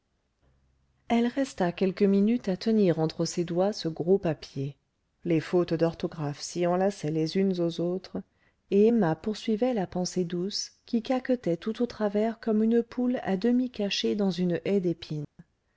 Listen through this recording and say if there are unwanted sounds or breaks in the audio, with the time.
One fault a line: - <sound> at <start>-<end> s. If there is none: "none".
- dropout at 15.2-15.4 s